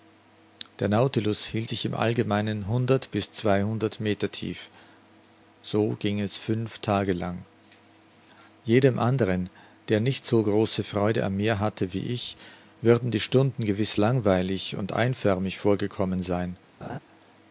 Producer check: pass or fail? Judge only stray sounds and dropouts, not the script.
fail